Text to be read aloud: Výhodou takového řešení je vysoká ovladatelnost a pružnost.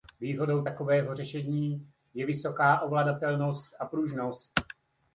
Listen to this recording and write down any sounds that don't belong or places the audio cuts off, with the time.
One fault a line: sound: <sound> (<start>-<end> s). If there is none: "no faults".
no faults